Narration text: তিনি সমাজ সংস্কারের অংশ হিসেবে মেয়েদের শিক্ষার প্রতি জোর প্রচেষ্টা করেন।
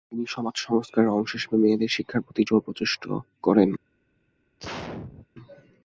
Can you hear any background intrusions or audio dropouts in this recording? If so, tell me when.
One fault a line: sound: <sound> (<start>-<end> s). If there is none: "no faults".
sound: sneeze (4.6-5.3 s)